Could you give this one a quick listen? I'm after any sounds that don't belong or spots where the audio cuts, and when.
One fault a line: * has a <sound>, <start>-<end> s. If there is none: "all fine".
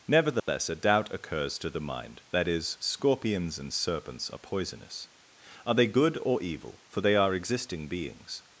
* has a dropout, 0.4-0.5 s